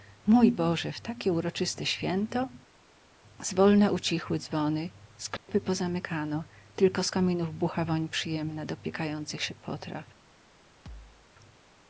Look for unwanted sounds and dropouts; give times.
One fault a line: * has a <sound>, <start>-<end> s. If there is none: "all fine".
* has a dropout, 5.4-5.5 s
* has a thud, 10.9-11.3 s